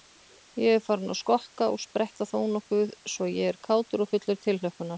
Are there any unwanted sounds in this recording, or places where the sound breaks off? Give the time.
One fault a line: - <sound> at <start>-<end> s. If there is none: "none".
none